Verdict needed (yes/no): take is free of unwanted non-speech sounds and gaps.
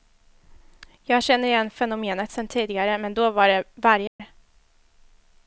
no